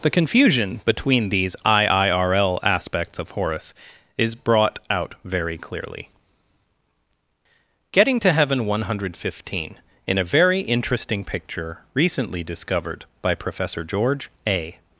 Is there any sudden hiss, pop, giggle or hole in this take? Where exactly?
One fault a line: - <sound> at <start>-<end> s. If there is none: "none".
none